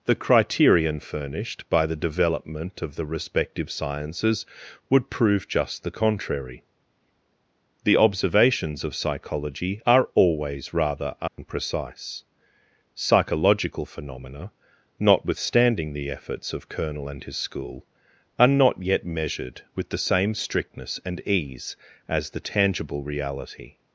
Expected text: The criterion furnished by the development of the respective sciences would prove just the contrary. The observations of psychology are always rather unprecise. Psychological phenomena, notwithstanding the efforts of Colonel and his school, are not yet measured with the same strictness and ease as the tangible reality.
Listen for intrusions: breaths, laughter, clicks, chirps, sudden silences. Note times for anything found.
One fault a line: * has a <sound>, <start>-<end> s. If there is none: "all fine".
* has a dropout, 11.3-11.4 s